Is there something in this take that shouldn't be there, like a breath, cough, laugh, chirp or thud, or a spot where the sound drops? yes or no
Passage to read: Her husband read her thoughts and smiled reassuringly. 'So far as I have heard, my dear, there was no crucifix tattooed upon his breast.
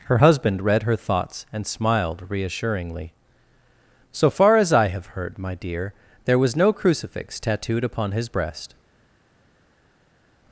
no